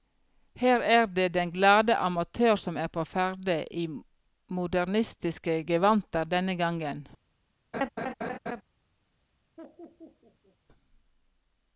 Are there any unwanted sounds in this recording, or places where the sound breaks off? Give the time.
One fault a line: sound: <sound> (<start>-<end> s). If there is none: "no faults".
sound: laugh (7.7-8.6 s)
sound: laugh (9.6-10.6 s)